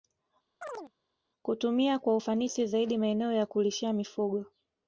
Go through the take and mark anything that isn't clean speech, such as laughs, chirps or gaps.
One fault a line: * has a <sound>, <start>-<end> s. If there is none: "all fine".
* has a chirp, 0.6-0.9 s